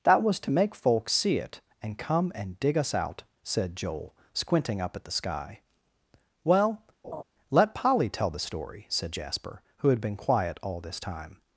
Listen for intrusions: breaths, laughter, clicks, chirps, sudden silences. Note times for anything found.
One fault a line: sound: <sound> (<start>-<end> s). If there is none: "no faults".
sound: laugh (7.0-7.2 s)